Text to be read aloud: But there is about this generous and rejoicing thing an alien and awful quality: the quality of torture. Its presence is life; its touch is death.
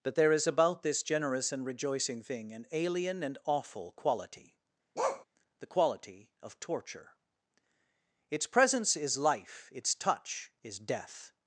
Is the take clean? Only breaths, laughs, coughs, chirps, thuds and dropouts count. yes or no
no